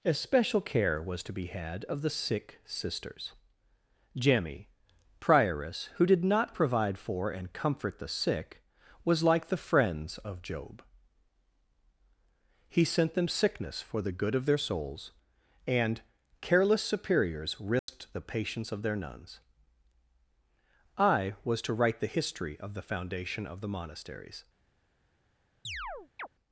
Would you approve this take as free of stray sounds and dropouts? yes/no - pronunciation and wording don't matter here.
no